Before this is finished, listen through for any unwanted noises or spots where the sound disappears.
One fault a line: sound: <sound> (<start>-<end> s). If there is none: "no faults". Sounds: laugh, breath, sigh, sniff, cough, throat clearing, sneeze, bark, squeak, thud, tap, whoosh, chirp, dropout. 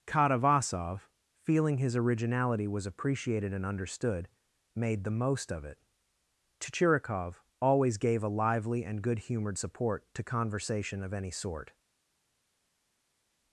no faults